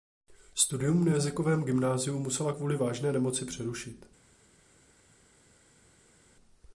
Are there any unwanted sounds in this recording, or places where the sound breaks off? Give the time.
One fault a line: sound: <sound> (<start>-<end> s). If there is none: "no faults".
no faults